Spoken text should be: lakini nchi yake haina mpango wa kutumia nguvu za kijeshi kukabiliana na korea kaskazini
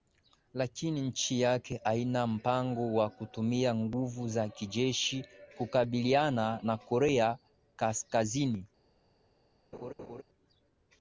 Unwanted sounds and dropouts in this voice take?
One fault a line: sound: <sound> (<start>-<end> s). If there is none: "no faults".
sound: laugh (9.7-10.2 s)